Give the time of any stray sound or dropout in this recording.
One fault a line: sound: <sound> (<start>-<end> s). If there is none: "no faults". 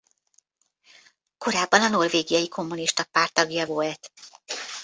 no faults